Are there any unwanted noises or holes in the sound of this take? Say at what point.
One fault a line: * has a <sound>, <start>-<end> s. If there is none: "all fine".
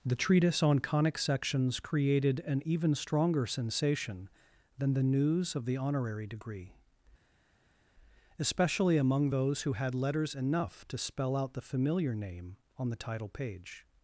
all fine